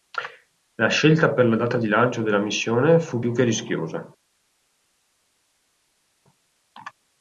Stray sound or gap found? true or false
false